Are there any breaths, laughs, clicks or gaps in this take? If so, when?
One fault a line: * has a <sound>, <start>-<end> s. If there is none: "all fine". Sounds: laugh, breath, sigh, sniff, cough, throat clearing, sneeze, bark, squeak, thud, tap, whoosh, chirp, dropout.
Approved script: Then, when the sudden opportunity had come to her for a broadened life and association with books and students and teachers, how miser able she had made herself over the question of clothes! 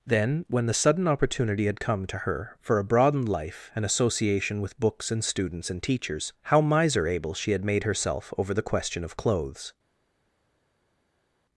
all fine